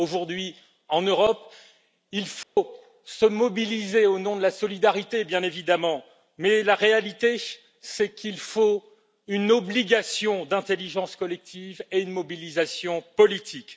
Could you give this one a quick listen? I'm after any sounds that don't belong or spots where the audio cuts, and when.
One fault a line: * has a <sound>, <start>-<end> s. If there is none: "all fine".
* has a dropout, 2.4-2.6 s